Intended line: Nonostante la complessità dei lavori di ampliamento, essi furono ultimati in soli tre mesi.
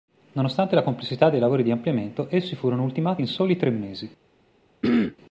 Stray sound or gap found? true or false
true